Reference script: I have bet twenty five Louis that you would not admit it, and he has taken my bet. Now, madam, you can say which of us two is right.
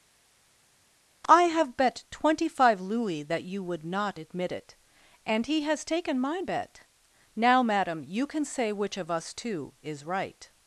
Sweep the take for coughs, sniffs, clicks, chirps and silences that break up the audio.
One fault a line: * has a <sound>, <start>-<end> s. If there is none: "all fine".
all fine